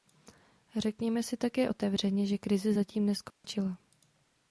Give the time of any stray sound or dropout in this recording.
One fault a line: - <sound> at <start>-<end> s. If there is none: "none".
- dropout at 3.3-3.4 s